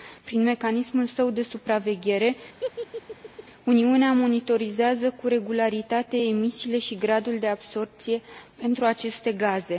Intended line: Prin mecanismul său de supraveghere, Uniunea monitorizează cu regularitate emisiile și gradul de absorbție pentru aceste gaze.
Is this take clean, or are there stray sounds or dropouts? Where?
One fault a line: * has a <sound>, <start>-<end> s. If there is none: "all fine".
* has a laugh, 2.6-3.4 s